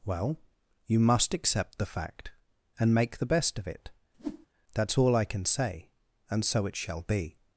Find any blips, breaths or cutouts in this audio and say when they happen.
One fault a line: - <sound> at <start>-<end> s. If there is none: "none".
- whoosh at 4.1-4.5 s